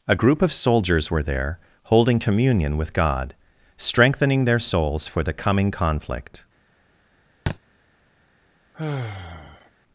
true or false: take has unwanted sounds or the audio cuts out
true